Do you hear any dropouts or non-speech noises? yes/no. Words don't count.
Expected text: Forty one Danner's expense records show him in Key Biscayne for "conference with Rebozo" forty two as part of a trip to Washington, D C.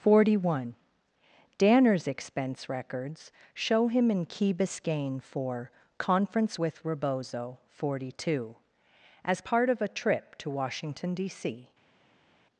no